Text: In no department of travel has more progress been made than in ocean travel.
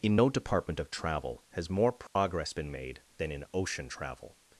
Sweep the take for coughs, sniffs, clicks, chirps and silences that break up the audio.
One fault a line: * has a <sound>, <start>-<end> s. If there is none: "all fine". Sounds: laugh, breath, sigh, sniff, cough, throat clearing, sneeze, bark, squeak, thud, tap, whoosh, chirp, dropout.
* has a dropout, 2.1-2.2 s